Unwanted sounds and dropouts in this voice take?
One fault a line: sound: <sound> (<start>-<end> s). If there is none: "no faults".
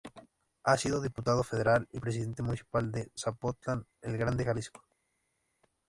no faults